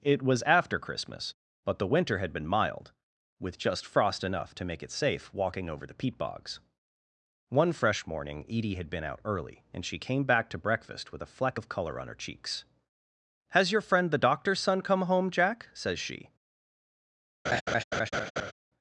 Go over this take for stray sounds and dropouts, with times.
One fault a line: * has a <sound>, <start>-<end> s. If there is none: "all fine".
* has a laugh, 17.5-18.5 s